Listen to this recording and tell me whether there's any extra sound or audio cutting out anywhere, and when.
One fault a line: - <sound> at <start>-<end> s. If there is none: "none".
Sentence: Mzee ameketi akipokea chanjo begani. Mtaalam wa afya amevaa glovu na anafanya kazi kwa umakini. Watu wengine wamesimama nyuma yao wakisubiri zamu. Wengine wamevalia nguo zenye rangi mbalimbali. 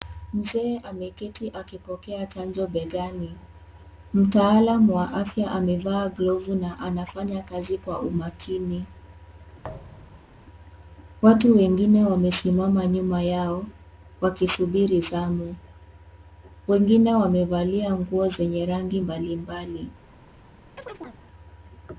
- thud at 9.6-10.4 s
- chirp at 20.8-21.2 s